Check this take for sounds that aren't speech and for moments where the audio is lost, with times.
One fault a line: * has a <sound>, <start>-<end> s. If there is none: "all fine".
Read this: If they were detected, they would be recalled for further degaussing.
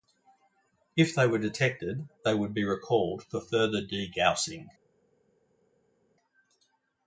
all fine